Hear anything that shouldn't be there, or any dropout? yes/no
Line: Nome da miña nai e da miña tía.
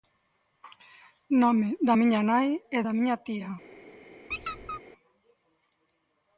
yes